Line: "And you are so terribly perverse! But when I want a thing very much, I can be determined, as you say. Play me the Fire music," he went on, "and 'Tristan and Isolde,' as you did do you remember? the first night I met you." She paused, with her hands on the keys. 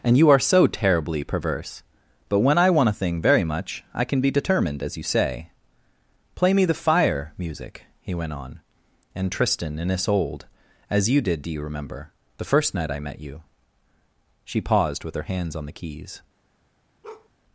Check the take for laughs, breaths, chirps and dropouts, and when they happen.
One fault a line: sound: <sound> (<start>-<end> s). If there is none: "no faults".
sound: bark (17.0-17.3 s)